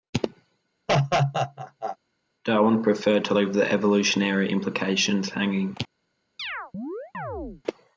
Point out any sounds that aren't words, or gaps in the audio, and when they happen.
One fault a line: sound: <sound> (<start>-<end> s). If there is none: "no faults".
sound: laugh (0.9-2.0 s)
sound: chirp (6.4-7.6 s)